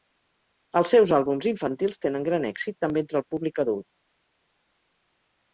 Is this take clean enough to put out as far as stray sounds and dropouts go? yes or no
yes